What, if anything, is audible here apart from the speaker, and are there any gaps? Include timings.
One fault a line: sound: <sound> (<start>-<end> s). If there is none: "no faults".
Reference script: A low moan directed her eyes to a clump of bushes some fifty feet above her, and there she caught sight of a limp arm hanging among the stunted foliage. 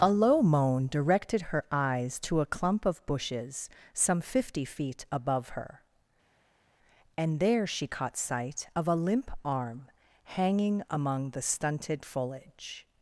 no faults